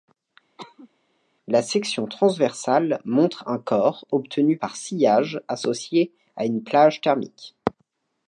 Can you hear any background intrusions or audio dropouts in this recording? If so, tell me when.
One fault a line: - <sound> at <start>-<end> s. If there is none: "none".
- cough at 0.6-0.9 s